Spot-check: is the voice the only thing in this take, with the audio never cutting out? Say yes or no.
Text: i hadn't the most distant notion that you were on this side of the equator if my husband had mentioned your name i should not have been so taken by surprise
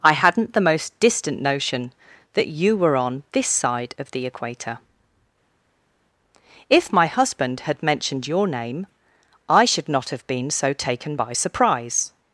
yes